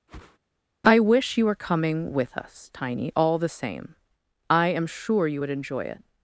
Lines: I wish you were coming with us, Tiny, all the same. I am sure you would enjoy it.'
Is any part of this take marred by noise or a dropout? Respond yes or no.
yes